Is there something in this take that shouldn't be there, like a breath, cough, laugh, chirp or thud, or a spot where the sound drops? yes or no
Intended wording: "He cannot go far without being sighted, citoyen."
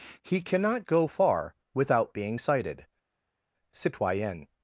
no